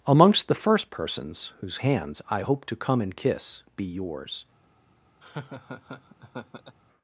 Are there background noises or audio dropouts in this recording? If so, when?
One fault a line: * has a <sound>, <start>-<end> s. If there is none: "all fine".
* has a laugh, 5.2-6.8 s